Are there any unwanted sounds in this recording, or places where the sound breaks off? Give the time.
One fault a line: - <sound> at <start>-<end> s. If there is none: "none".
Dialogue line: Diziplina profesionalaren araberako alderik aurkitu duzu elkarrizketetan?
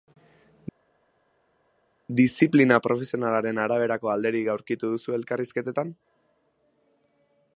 none